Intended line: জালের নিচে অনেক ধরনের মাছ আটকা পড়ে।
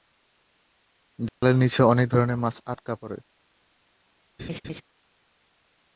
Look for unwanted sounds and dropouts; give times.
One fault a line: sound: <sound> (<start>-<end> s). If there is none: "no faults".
sound: dropout (1.3-1.4 s)
sound: laugh (4.4-4.8 s)